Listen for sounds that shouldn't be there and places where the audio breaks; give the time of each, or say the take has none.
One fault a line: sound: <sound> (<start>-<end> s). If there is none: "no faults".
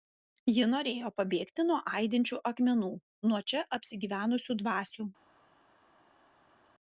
no faults